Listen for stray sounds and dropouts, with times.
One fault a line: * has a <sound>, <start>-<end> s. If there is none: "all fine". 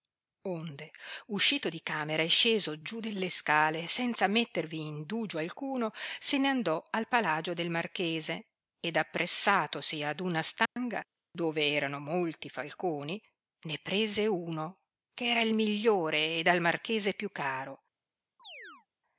* has a dropout, 10.7-10.8 s
* has a chirp, 18.4-18.9 s